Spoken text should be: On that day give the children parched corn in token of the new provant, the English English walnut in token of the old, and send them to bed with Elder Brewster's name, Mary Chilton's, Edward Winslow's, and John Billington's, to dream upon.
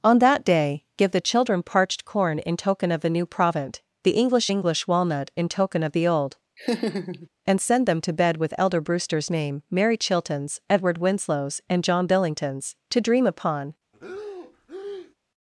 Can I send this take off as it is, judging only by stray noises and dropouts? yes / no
no